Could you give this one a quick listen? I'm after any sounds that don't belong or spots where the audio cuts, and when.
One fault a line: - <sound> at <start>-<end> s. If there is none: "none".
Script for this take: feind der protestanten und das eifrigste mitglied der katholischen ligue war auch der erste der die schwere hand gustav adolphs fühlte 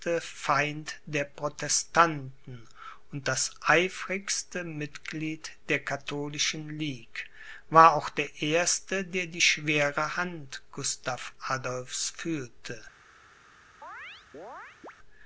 - chirp at 13.8-14.9 s